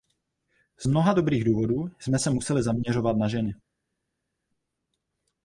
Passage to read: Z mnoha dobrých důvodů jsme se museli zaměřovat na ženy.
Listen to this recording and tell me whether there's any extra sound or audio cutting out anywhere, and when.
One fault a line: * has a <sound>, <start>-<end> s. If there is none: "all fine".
all fine